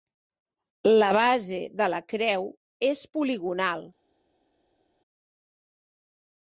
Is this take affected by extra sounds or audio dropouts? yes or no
no